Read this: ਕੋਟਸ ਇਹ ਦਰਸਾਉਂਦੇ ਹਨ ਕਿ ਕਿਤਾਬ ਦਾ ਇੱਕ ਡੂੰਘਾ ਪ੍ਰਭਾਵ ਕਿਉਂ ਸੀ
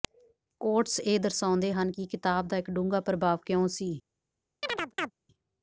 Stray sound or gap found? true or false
true